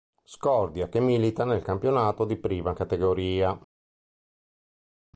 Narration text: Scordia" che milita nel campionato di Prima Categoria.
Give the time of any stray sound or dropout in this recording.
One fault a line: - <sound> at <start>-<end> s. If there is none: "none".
none